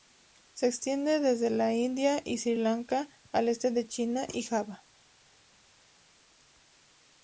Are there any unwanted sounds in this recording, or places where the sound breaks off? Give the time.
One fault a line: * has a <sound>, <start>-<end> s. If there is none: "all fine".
all fine